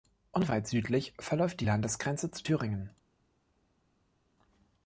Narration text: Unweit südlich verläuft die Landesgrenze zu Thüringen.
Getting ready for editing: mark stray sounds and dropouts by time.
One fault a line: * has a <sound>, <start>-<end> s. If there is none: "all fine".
all fine